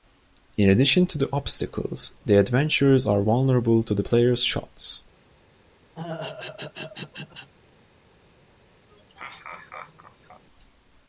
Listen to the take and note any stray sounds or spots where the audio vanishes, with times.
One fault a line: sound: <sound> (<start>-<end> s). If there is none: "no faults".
sound: throat clearing (5.9-7.5 s)
sound: laugh (8.9-10.4 s)